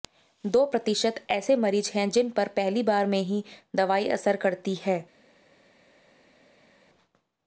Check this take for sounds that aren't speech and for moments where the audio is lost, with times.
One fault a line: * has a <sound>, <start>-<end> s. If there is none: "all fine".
all fine